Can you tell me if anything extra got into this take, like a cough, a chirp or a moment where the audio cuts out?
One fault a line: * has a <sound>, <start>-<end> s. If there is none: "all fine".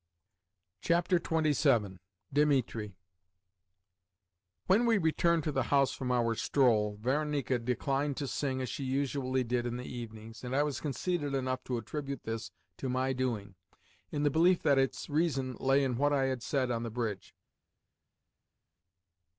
all fine